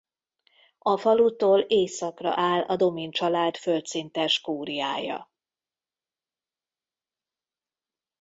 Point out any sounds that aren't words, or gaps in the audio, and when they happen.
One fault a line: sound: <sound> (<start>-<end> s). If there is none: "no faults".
no faults